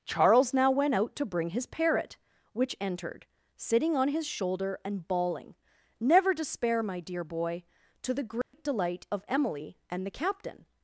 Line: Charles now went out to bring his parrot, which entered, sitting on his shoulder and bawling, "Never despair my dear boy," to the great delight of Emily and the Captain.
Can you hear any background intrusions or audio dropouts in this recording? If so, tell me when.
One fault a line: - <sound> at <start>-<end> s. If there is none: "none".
- dropout at 8.4-8.5 s